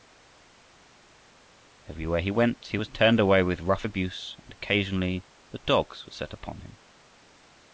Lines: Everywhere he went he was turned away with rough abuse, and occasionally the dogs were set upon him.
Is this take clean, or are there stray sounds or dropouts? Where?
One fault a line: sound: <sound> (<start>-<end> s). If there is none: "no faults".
no faults